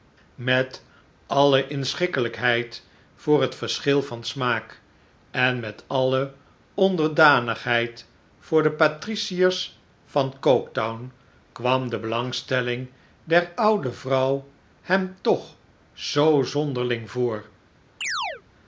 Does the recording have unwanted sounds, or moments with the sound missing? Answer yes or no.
yes